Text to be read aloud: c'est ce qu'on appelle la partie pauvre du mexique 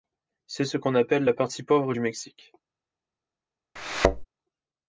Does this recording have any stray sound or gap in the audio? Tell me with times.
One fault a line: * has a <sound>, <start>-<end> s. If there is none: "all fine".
* has a thud, 3.8-4.3 s